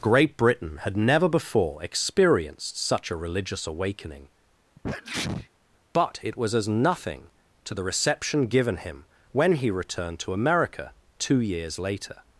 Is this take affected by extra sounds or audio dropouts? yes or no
yes